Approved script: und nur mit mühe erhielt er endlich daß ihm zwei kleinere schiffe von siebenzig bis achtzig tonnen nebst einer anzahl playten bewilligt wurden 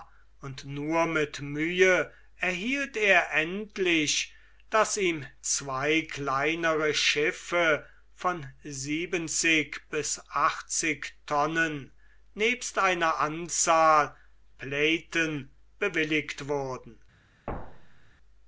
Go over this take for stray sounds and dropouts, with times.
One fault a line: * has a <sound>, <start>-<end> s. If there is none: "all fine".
* has a thud, 17.5-18.1 s